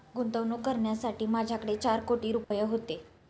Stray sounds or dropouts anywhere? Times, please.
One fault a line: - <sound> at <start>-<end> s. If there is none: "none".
- dropout at 2.4-2.5 s